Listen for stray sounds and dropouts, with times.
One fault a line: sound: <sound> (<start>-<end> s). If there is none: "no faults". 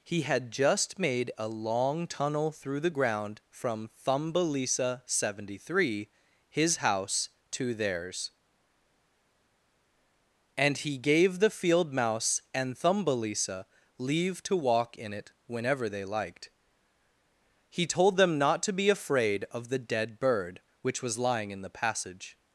no faults